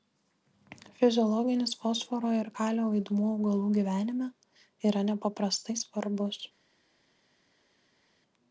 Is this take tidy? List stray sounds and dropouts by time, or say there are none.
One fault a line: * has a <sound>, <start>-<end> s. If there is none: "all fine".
all fine